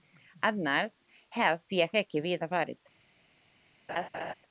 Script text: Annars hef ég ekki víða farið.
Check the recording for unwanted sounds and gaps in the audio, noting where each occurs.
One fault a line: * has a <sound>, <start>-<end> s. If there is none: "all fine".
* has a laugh, 3.9-4.3 s